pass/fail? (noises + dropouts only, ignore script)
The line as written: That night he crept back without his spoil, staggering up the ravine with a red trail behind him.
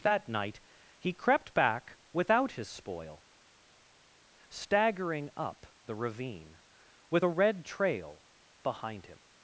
pass